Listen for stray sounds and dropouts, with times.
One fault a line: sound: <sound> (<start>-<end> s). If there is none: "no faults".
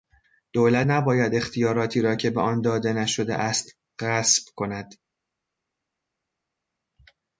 no faults